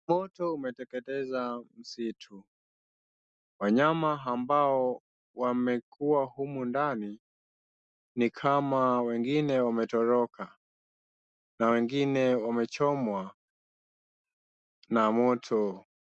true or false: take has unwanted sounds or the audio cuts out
false